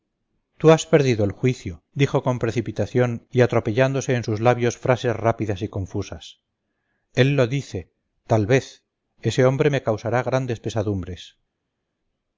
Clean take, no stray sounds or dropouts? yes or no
yes